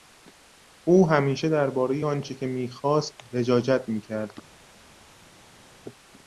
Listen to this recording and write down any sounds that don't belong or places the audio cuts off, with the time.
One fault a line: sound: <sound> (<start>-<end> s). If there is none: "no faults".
no faults